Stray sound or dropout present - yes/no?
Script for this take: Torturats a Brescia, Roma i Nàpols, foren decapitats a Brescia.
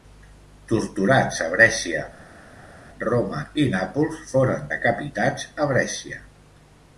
no